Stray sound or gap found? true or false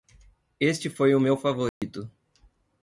true